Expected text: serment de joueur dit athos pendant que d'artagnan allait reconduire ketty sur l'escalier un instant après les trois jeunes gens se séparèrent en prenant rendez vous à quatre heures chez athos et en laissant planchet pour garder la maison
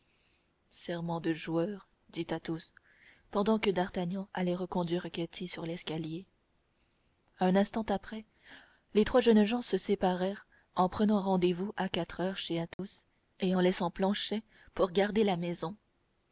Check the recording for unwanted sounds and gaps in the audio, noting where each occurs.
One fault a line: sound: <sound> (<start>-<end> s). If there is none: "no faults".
sound: dropout (12.7-12.8 s)